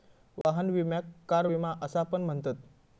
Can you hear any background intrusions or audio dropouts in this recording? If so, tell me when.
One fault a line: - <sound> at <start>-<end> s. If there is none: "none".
- dropout at 0.4-0.4 s